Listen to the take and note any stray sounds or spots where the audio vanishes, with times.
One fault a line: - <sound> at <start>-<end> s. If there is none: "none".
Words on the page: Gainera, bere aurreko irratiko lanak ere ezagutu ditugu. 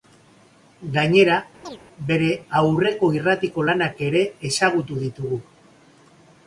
- chirp at 1.6-1.8 s